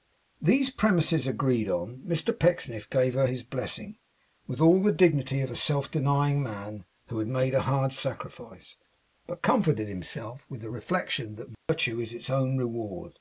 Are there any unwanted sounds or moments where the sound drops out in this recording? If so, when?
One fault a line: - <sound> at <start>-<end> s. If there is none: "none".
- dropout at 11.5-11.7 s